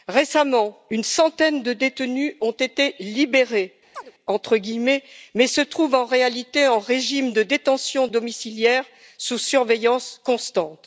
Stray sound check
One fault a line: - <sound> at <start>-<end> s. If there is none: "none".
- chirp at 3.9-4.1 s